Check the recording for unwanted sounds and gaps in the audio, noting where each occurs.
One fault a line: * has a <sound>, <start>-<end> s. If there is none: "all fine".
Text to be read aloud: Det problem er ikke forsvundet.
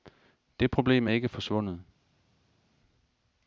all fine